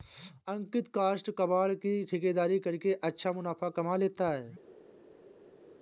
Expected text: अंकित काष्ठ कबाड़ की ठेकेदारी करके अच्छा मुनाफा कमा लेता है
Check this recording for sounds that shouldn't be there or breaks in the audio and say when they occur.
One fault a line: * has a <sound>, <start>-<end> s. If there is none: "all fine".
all fine